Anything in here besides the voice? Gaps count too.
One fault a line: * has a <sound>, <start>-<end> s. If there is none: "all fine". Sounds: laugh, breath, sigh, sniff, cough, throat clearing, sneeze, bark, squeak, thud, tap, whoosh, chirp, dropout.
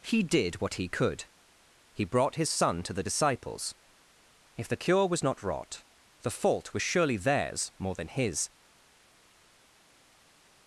all fine